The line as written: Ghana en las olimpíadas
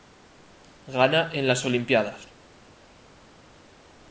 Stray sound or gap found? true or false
false